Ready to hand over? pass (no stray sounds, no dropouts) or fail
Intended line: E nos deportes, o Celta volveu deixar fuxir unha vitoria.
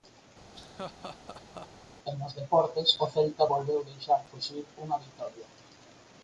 fail